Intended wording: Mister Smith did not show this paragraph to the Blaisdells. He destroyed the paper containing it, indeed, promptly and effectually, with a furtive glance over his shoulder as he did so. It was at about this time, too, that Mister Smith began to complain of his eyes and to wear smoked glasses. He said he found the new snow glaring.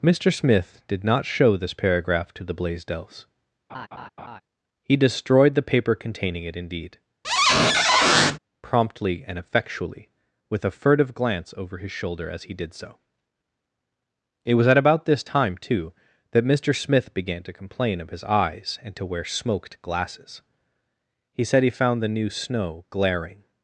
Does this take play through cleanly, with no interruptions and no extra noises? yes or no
no